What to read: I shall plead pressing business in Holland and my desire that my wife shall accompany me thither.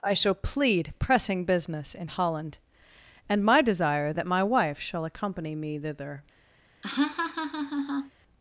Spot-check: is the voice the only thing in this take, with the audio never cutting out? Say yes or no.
no